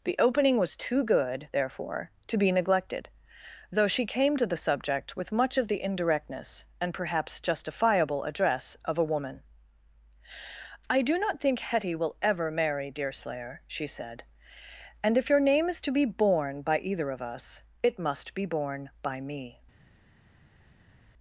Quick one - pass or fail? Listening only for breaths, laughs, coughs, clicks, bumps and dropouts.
pass